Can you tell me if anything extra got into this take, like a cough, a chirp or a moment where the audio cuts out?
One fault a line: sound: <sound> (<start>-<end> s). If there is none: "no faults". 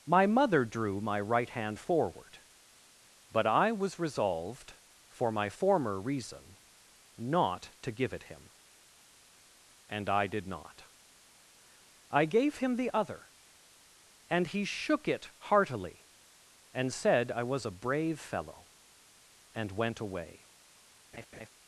sound: laugh (21.1-21.5 s)